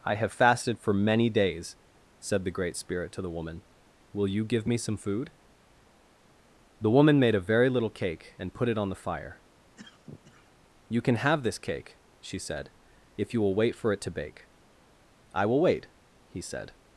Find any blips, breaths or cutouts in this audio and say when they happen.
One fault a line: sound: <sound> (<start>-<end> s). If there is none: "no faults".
sound: cough (9.8-10.5 s)